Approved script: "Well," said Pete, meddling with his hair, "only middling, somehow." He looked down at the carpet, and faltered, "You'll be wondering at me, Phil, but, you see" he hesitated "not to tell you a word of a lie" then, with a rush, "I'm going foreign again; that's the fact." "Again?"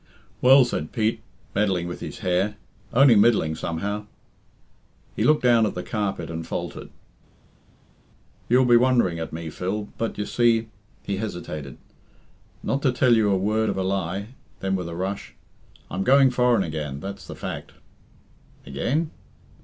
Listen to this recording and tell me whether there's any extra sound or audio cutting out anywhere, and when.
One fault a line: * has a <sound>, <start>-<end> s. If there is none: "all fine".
all fine